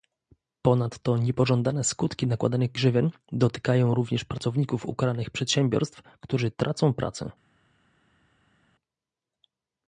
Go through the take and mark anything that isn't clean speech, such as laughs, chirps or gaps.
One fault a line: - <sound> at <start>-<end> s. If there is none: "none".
none